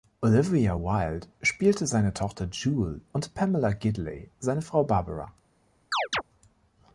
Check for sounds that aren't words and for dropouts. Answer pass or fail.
fail